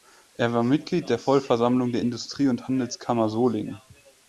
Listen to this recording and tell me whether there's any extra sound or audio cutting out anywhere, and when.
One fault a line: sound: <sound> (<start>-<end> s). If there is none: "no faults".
no faults